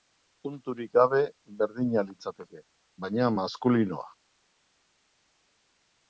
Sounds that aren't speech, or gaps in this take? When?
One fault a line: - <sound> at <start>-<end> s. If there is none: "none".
none